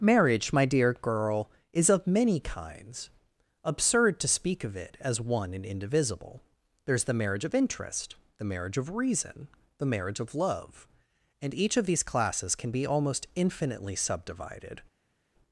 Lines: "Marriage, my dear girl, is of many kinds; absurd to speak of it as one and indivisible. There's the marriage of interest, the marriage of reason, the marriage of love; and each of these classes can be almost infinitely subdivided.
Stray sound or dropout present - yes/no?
no